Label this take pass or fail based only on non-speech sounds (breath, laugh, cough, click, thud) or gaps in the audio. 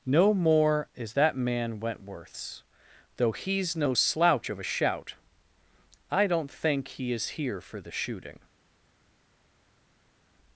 pass